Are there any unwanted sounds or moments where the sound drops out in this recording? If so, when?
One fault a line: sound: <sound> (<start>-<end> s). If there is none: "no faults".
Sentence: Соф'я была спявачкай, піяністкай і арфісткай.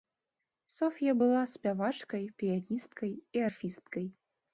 no faults